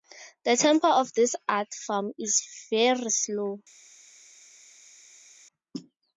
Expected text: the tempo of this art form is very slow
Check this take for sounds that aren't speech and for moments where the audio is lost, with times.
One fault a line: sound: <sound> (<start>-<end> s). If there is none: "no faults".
no faults